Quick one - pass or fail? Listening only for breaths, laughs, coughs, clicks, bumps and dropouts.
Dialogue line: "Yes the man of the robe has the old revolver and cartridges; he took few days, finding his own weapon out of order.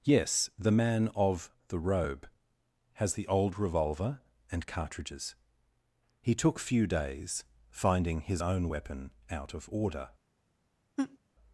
fail